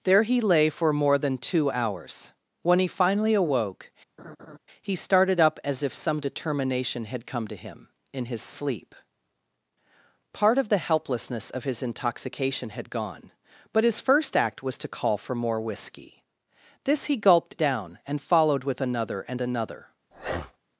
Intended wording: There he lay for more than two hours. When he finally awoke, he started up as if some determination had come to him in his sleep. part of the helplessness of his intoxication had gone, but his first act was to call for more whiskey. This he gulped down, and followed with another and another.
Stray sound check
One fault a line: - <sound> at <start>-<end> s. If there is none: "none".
- laugh at 4.2-4.6 s
- breath at 20.1-20.6 s